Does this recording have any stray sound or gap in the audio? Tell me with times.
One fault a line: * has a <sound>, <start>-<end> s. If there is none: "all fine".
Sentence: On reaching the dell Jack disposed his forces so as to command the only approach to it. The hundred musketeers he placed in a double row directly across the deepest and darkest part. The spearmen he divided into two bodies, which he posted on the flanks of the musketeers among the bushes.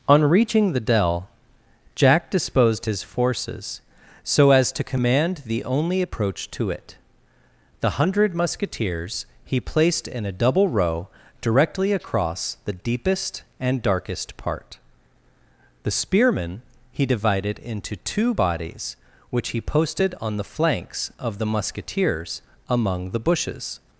all fine